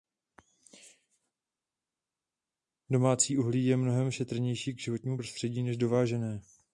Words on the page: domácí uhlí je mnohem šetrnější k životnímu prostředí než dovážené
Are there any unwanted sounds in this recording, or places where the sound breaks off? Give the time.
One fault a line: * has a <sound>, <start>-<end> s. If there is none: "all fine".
all fine